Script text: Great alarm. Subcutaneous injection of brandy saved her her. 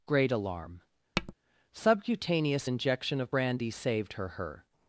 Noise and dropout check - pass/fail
fail